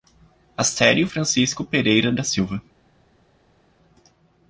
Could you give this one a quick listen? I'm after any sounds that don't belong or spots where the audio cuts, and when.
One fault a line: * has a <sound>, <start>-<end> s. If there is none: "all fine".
all fine